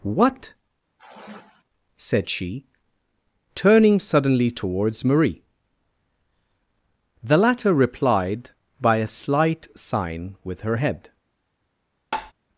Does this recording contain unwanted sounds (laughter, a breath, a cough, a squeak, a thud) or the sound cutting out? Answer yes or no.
yes